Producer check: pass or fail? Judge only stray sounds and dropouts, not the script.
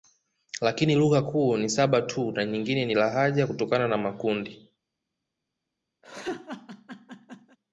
fail